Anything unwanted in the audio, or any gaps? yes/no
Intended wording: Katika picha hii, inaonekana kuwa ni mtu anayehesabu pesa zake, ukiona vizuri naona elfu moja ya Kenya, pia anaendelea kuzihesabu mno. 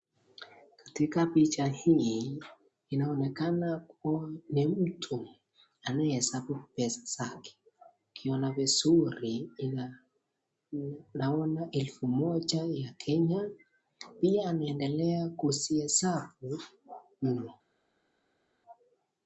no